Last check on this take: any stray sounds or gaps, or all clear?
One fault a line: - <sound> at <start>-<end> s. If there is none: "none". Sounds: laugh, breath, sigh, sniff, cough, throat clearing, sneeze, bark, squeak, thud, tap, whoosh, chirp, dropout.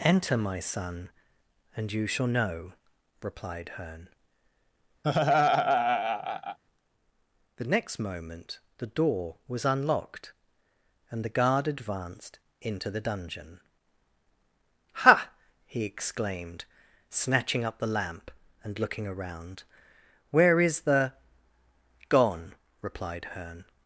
- laugh at 5.0-6.6 s